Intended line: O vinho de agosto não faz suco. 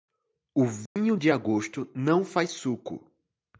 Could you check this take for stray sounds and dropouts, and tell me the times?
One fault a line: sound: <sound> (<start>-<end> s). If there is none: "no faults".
sound: dropout (0.9-1.0 s)